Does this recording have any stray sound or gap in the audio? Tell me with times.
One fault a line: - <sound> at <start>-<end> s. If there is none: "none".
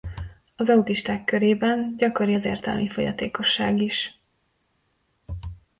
none